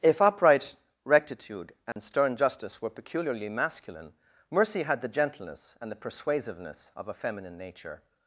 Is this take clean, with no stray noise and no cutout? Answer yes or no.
no